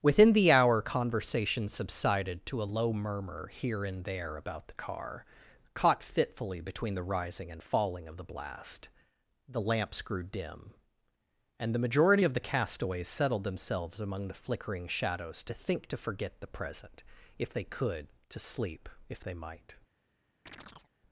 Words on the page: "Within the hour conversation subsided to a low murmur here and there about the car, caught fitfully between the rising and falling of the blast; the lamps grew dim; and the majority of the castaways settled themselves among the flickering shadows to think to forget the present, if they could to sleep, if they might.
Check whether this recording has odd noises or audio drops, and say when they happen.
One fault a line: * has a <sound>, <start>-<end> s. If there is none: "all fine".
* has a chirp, 20.5-20.9 s